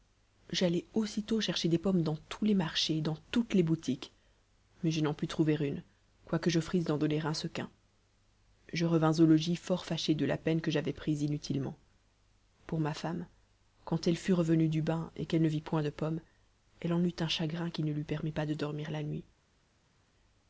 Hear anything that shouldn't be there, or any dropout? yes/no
no